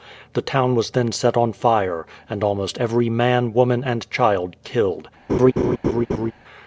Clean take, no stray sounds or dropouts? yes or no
no